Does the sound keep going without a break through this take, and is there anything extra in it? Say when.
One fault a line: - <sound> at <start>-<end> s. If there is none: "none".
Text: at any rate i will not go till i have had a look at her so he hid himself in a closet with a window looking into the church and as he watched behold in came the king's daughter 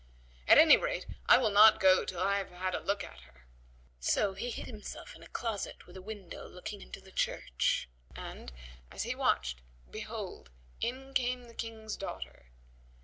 none